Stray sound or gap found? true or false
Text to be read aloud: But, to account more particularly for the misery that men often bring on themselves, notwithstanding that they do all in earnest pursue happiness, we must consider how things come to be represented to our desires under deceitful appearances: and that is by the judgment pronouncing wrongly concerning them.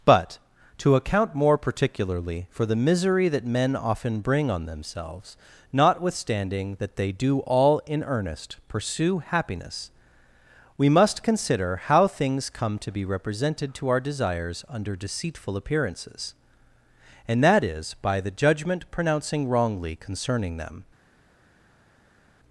false